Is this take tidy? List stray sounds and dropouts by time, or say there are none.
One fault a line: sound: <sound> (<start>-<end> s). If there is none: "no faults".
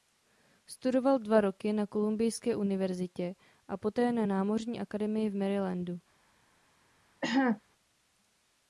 sound: cough (7.2-7.6 s)